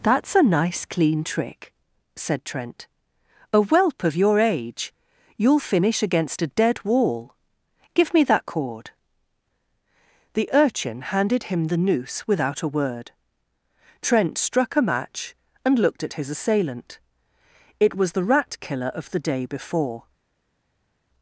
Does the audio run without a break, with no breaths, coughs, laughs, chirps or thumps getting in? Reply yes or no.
yes